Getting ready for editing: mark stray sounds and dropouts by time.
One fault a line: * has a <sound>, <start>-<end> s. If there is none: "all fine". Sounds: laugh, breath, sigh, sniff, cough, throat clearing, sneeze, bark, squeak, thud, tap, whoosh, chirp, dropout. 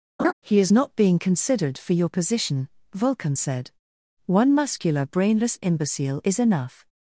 * has a laugh, 0.2-0.3 s